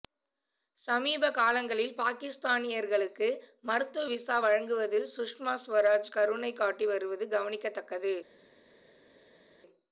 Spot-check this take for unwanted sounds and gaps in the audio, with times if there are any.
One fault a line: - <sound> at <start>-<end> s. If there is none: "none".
none